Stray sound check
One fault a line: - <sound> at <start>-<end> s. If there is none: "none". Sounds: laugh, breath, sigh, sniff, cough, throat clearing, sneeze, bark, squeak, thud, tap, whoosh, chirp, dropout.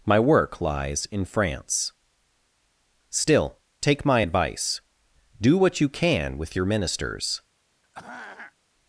- throat clearing at 7.8-8.5 s